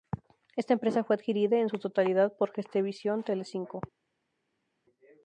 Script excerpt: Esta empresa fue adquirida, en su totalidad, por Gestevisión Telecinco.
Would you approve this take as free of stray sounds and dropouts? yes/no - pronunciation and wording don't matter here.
yes